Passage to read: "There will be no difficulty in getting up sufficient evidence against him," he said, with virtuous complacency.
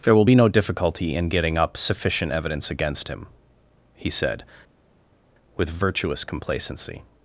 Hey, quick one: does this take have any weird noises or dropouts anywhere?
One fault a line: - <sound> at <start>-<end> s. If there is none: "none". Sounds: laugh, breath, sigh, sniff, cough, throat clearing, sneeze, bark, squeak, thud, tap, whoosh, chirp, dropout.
none